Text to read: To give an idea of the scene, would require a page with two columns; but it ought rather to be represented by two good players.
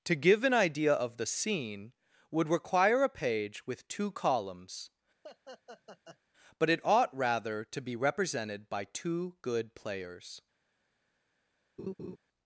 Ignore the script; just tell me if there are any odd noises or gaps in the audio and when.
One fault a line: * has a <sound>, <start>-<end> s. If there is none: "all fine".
* has a laugh, 5.2-6.2 s
* has a laugh, 11.8-12.2 s